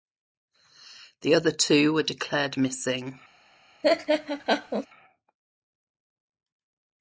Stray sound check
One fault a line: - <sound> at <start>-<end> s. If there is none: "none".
- laugh at 3.8-4.9 s